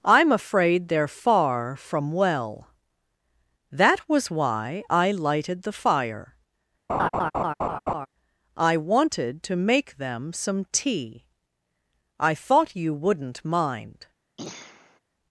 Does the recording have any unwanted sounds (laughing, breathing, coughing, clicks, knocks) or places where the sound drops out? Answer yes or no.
yes